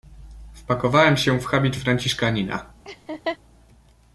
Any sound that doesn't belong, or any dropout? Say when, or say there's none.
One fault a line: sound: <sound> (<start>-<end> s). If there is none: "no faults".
sound: laugh (2.9-3.4 s)